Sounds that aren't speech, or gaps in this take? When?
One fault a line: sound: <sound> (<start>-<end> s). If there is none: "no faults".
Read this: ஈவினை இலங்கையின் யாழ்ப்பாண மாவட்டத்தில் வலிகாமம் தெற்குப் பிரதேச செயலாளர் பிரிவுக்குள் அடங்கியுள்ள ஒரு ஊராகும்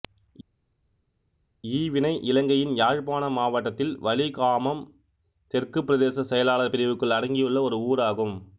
no faults